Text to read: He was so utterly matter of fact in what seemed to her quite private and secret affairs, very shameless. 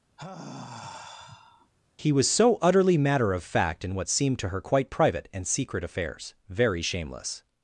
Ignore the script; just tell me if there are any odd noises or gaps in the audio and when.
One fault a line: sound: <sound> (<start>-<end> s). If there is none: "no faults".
sound: sigh (0.2-1.7 s)